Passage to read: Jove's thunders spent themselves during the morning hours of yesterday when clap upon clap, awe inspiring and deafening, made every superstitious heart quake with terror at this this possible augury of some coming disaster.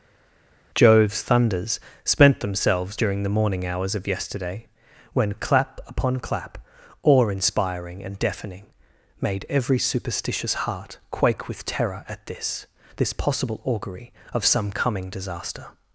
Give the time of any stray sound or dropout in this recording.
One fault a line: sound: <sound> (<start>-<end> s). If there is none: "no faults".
no faults